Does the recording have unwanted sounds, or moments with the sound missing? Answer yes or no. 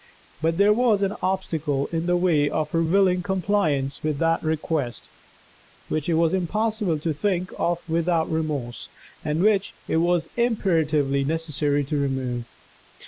no